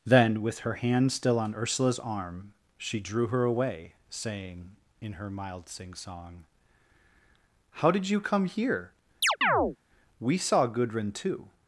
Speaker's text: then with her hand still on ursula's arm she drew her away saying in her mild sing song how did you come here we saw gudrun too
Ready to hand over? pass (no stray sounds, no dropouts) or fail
fail